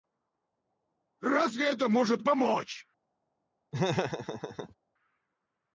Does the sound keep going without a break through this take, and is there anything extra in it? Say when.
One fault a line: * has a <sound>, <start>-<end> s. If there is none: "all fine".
* has a laugh, 3.7-4.8 s